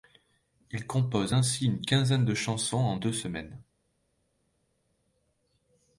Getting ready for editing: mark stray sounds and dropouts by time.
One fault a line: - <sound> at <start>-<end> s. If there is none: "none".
none